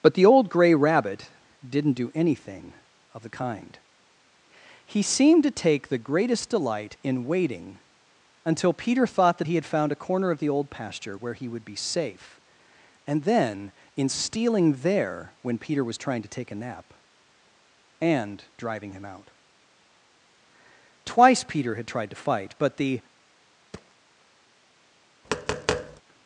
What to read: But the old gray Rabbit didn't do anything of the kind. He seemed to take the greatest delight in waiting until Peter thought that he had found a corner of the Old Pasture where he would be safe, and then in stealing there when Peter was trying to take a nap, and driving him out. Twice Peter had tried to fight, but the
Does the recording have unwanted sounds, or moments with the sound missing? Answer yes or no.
yes